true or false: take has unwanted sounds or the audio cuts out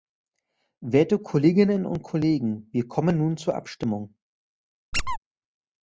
true